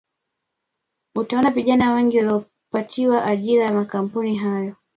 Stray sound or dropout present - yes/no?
no